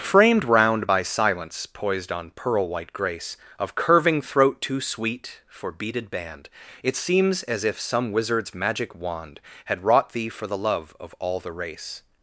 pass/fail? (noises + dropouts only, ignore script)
pass